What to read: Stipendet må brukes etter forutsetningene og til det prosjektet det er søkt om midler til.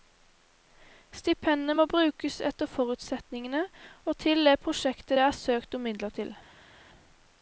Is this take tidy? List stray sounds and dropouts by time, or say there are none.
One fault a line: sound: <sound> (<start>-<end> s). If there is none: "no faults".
no faults